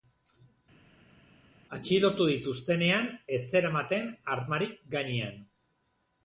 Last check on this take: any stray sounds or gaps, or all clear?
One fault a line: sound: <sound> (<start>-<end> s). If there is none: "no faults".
no faults